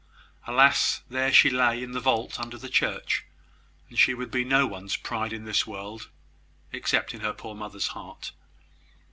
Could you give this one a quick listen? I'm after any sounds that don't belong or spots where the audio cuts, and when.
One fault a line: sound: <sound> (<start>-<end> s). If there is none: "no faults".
no faults